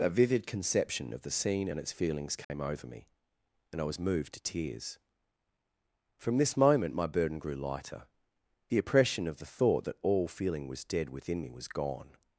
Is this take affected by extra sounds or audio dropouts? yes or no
yes